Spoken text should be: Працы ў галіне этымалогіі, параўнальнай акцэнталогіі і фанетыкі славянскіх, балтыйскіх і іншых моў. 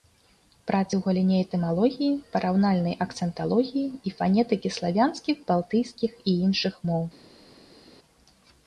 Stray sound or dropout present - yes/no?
no